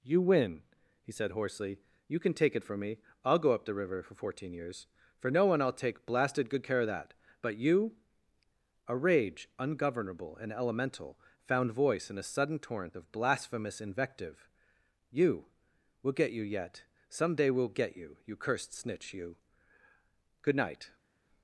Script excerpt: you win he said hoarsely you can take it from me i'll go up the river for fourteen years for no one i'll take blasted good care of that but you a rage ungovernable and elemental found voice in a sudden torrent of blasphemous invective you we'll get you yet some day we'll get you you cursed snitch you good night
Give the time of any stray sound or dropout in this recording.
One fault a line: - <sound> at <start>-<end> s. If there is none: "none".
none